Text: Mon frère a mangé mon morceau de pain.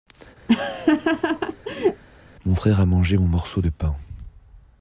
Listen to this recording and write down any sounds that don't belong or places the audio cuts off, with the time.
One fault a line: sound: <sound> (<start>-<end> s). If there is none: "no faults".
sound: laugh (0.5-2.0 s)